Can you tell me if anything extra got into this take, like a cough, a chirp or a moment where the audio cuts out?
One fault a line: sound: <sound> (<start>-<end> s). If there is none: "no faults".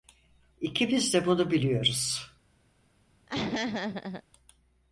sound: laugh (3.3-4.2 s)